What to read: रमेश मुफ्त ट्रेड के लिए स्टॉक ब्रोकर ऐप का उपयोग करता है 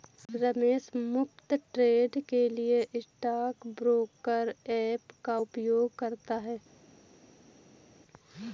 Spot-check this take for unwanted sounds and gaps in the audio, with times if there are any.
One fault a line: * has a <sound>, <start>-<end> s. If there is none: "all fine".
all fine